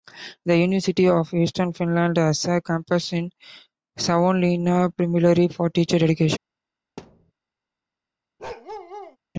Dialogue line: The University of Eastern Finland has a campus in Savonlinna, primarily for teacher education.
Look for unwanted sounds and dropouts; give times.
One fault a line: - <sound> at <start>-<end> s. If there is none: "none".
- thud at 7.0-7.3 s
- bark at 8.4-9.2 s